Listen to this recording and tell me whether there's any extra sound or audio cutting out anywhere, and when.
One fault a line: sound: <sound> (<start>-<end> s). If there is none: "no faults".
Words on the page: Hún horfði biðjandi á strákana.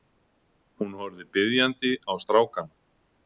no faults